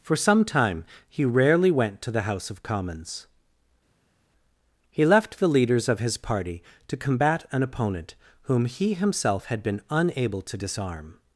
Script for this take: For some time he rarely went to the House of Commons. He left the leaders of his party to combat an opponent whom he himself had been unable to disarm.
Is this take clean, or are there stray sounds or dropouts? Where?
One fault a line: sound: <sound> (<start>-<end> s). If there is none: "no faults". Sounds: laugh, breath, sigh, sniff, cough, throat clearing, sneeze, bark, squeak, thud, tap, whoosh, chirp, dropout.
no faults